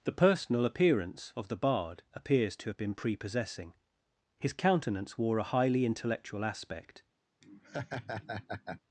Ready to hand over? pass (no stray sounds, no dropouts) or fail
fail